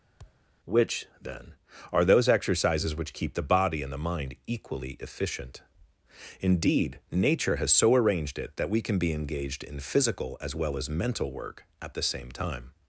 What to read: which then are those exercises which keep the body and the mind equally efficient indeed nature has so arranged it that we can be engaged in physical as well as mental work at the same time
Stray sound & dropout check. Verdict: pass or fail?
fail